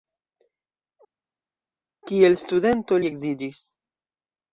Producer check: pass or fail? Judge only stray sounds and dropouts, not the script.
pass